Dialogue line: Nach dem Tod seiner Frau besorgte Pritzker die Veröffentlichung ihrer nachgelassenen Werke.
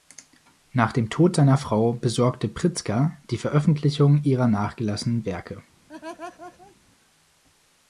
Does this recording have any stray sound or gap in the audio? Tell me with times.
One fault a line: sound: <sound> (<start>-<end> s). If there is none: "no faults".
sound: laugh (5.9-6.8 s)